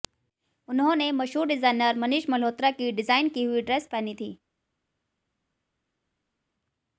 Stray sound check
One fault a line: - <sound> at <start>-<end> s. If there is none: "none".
none